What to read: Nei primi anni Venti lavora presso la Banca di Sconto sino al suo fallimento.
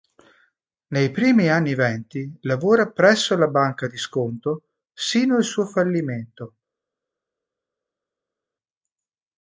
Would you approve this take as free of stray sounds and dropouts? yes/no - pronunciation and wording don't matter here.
yes